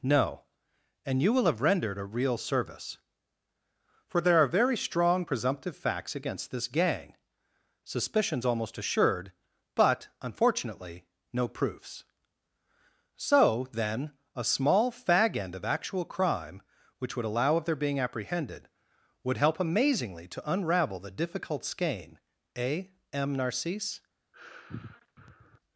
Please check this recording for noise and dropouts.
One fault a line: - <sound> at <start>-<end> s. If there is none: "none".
- sigh at 24.3-25.6 s